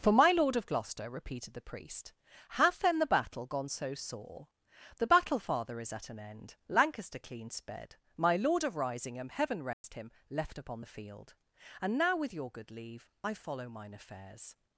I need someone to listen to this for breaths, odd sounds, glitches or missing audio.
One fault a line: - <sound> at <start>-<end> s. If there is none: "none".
- dropout at 9.7-9.8 s